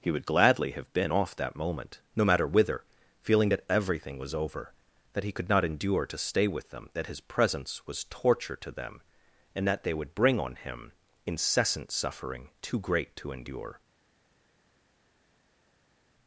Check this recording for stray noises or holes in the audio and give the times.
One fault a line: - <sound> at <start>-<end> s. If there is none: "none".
none